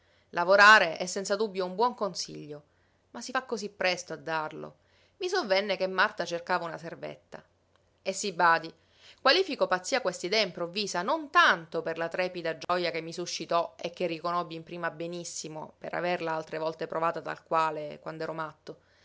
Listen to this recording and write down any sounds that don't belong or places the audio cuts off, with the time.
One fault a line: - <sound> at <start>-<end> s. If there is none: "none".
- dropout at 12.6-12.7 s